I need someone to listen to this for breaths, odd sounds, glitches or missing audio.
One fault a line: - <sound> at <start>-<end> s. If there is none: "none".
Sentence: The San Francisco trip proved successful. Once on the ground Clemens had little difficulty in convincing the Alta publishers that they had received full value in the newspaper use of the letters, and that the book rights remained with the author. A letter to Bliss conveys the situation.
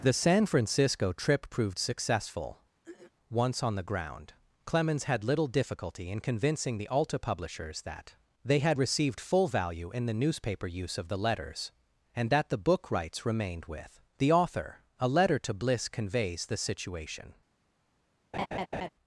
- throat clearing at 2.8-3.1 s
- laugh at 18.3-18.9 s